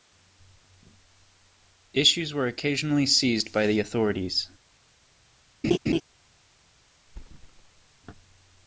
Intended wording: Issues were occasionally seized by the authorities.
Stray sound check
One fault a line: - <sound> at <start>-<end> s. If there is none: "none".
- laugh at 5.6-6.0 s
- thud at 7.1-8.0 s